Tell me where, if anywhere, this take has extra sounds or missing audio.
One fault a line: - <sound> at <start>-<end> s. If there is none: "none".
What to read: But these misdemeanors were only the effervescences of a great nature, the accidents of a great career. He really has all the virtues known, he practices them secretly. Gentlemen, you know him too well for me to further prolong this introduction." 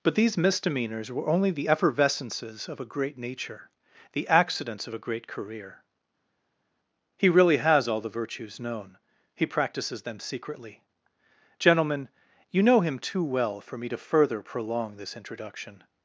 none